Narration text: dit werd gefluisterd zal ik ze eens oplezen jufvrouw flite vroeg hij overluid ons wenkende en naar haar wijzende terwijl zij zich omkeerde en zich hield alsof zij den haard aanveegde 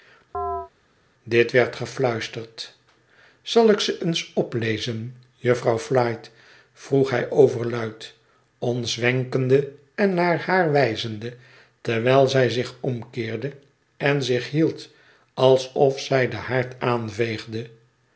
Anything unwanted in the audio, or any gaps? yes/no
yes